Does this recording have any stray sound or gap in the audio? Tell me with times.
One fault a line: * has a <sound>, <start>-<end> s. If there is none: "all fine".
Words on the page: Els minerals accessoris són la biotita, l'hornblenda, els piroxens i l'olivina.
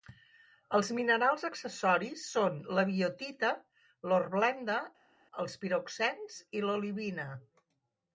all fine